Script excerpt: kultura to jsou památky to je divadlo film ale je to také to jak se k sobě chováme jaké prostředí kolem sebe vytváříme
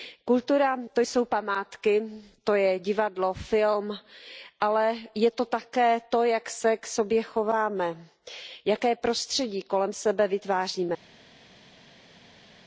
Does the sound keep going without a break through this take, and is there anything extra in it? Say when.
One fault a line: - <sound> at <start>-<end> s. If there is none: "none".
none